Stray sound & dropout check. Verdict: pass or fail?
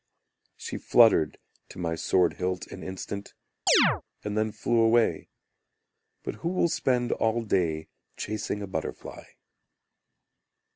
fail